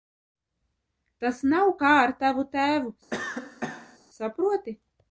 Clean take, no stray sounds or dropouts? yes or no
no